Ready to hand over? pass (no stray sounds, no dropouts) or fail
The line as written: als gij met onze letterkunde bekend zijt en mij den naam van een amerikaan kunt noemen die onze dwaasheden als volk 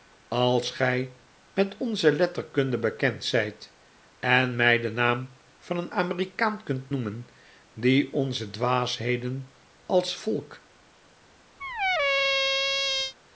fail